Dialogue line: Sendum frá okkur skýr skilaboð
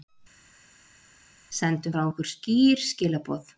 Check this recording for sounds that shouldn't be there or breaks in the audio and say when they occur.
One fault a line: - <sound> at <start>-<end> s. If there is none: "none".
none